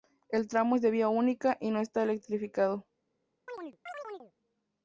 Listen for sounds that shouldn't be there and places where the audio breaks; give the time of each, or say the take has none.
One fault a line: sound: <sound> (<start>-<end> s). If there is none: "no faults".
sound: chirp (3.5-4.3 s)